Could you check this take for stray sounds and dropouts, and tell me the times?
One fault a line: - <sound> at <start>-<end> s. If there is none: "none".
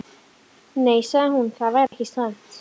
- dropout at 1.9-1.9 s